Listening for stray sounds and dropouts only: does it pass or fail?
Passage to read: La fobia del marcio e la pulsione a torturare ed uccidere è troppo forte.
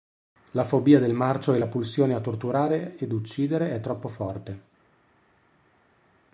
pass